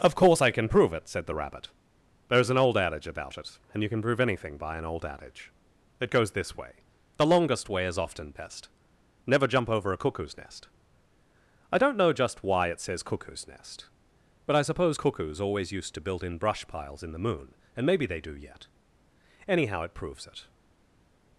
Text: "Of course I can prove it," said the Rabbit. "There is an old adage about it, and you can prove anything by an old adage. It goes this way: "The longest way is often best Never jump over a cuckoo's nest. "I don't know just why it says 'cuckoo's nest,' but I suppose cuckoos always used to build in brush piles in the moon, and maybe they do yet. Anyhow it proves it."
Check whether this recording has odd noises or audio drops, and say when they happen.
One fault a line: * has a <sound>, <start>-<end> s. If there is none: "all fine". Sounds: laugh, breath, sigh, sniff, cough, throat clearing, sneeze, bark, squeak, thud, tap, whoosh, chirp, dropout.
all fine